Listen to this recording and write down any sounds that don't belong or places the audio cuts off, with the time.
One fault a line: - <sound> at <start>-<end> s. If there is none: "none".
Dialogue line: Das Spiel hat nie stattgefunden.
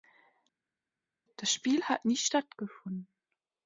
none